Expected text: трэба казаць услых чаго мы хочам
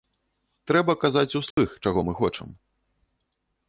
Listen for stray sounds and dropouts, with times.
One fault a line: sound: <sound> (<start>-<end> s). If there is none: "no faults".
sound: dropout (1.5-1.6 s)